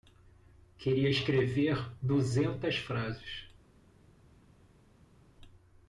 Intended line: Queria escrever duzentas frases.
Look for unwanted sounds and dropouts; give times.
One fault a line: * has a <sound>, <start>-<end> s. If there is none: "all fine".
all fine